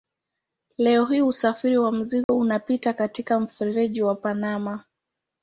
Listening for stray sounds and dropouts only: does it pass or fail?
fail